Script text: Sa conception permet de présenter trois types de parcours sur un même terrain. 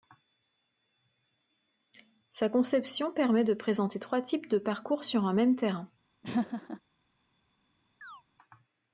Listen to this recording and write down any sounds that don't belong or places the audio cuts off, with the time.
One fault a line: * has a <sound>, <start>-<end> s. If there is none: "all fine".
* has a laugh, 6.2-6.8 s
* has a chirp, 8.0-8.2 s